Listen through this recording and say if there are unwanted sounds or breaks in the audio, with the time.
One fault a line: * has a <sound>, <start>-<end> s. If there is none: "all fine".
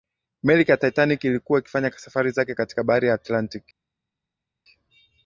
all fine